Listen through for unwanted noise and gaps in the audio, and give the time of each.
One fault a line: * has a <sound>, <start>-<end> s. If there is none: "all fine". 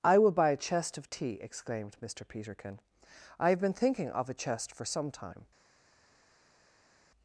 all fine